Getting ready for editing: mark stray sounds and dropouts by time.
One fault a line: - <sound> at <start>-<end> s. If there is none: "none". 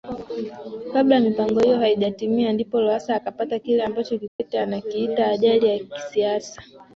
- dropout at 4.3-4.4 s